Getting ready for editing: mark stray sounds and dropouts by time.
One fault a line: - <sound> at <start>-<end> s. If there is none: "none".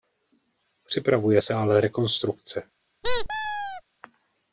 - squeak at 3.0-3.8 s